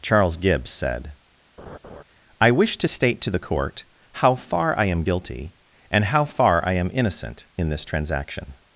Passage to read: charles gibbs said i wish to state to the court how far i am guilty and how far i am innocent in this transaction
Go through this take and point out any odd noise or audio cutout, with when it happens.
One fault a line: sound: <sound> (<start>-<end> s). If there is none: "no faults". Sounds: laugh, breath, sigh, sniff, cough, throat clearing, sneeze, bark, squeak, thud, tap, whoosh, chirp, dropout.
sound: laugh (1.6-2.0 s)